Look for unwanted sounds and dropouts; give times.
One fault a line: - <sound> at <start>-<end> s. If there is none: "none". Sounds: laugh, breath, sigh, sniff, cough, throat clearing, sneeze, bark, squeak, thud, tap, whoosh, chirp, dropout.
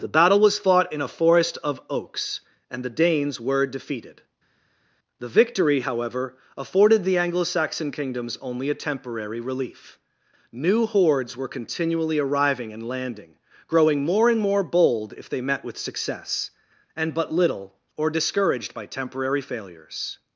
none